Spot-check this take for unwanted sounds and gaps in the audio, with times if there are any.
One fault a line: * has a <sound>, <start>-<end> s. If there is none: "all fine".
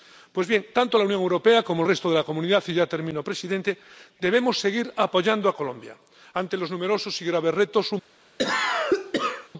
* has a cough, 8.4-9.5 s